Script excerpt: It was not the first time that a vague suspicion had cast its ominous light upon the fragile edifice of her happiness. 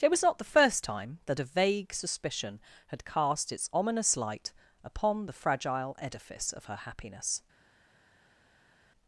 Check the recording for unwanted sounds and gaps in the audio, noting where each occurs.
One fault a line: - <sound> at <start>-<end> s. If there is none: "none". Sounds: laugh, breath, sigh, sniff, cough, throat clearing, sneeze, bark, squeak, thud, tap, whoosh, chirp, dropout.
none